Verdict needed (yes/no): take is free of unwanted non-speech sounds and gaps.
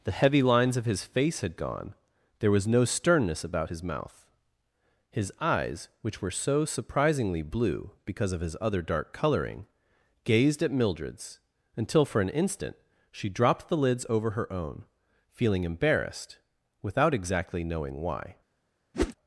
no